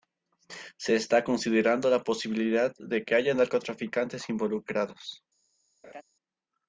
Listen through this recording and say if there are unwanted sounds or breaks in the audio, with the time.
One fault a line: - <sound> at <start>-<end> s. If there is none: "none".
- laugh at 5.8-6.0 s